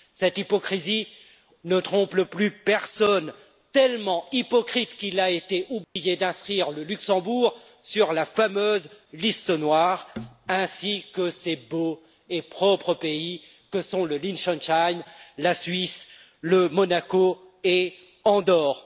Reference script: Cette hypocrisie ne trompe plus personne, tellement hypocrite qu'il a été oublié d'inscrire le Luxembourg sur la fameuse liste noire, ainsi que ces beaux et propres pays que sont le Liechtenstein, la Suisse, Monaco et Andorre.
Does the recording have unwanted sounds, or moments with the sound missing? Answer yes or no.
yes